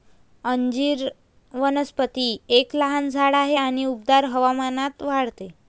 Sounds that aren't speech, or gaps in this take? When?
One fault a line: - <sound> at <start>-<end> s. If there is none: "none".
none